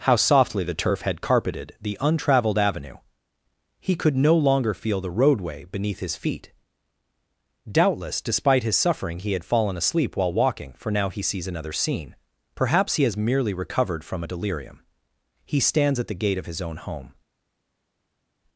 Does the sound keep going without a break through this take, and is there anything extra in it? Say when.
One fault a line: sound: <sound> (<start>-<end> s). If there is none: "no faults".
no faults